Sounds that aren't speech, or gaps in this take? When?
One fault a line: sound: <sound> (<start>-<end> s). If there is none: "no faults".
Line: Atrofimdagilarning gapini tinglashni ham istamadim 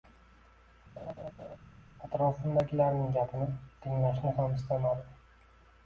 sound: laugh (1.0-1.6 s)